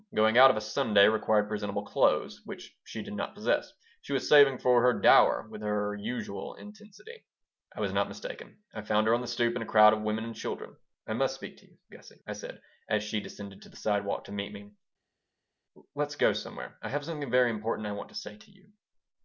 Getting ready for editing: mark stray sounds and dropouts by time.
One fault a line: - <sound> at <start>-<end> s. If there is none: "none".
none